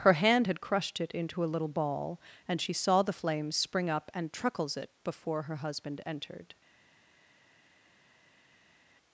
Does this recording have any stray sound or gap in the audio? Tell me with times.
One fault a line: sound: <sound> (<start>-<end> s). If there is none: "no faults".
no faults